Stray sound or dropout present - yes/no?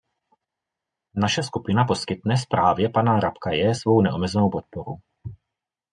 no